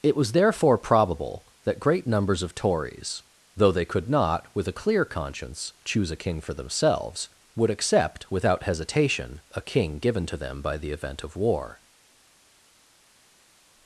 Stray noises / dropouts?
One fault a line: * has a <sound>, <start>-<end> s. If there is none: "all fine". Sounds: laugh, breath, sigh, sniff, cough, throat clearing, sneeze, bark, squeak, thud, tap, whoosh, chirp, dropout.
all fine